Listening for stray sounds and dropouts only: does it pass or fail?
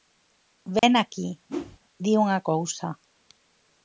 fail